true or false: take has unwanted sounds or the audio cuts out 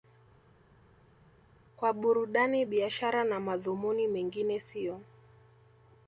false